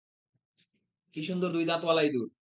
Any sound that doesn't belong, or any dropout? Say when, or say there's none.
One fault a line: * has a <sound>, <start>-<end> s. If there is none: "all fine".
all fine